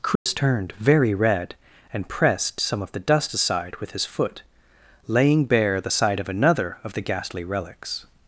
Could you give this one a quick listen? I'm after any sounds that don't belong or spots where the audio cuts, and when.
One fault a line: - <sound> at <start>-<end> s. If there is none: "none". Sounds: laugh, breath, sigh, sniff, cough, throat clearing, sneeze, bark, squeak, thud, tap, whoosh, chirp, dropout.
- dropout at 0.2-0.3 s